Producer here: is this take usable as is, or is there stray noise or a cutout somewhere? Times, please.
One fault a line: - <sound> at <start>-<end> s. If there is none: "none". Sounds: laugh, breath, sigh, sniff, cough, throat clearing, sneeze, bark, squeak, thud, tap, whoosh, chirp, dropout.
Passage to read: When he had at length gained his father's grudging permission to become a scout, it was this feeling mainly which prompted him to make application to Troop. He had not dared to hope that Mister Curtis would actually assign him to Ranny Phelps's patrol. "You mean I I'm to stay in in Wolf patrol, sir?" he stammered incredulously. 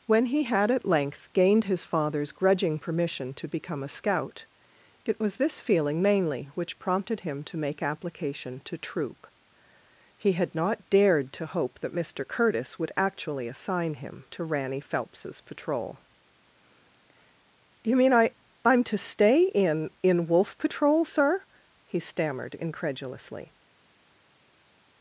none